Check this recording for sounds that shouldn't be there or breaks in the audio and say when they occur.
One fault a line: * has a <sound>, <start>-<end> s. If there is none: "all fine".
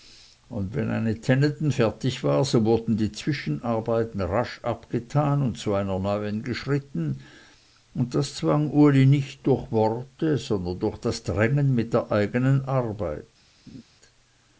* has a laugh, 13.7-13.8 s